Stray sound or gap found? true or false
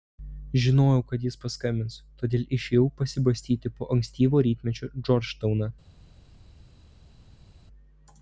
false